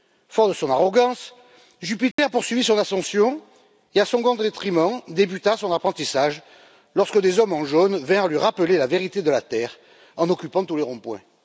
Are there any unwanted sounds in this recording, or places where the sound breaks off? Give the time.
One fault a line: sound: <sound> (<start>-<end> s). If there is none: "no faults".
sound: dropout (2.1-2.2 s)